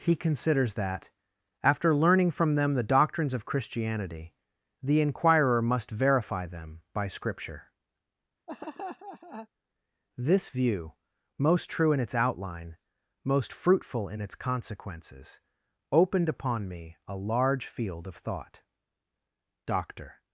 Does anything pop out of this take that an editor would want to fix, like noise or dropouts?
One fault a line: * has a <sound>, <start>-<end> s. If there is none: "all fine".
* has a laugh, 8.5-9.5 s